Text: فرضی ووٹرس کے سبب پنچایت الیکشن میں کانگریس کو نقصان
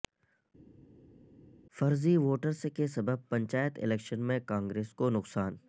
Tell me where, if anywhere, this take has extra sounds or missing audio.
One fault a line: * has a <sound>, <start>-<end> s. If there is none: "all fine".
all fine